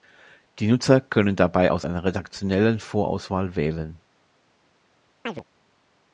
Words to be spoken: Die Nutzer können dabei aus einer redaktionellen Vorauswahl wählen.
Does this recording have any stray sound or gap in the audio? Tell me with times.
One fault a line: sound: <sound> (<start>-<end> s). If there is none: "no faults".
sound: chirp (5.3-5.4 s)